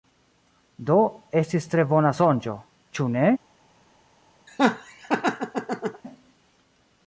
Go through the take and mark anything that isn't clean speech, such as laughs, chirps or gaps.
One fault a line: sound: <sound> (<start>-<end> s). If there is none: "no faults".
sound: laugh (4.5-6.0 s)